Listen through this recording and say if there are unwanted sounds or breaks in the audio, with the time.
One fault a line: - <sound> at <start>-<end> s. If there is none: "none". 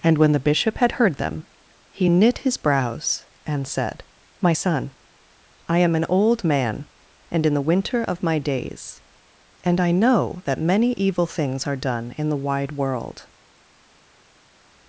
none